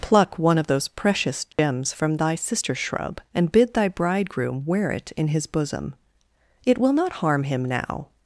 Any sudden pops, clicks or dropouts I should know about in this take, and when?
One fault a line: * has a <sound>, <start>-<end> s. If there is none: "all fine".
* has a dropout, 1.5-1.6 s